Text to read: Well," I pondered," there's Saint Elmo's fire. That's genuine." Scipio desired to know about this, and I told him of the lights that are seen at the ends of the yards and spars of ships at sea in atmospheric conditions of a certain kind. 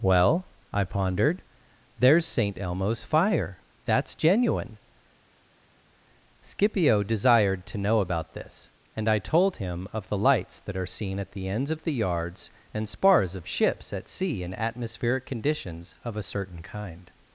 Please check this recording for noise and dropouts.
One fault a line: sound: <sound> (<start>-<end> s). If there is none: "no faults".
no faults